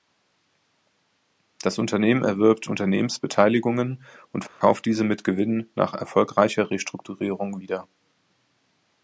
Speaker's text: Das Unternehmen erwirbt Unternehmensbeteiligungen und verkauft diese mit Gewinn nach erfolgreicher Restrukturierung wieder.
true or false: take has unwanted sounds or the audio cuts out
true